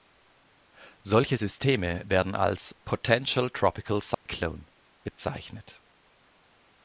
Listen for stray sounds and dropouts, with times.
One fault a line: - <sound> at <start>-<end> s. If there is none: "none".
- dropout at 4.1-4.3 s